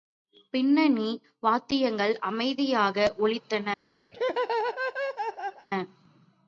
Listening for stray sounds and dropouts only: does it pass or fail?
fail